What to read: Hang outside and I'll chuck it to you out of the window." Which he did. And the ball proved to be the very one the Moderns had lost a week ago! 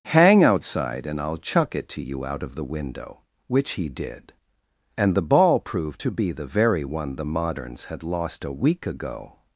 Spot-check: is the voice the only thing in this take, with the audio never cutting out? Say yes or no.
yes